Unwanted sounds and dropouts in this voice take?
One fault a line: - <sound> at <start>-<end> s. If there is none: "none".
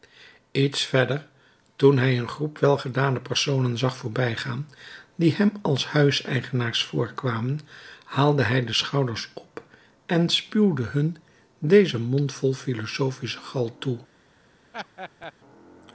- laugh at 14.7-15.3 s